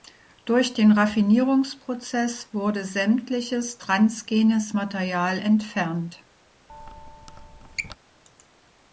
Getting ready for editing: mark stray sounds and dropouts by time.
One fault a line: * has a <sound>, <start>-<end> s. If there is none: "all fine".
* has a squeak, 6.7-8.0 s